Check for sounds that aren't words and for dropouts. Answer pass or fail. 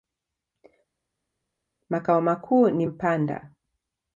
pass